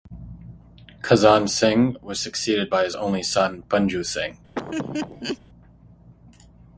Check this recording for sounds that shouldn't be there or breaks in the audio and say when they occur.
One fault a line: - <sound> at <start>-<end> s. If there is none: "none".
- laugh at 4.6-5.4 s